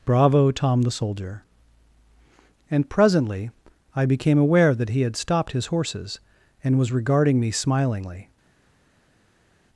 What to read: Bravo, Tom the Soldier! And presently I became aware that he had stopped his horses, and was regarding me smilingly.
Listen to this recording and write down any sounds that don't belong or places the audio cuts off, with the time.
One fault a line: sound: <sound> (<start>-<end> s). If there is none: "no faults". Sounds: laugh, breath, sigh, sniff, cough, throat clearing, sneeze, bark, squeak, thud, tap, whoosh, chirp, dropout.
no faults